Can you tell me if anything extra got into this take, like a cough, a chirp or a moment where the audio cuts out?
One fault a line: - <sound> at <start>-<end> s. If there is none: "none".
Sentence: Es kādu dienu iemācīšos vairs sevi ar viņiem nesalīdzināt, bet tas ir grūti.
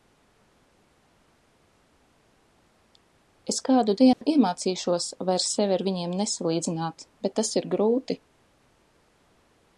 - dropout at 4.1-4.2 s